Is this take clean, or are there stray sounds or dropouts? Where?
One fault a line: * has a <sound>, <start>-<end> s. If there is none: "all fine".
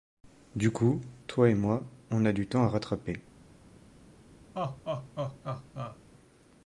* has a laugh, 4.5-6.0 s